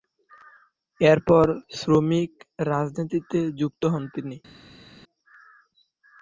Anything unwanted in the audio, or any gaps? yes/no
no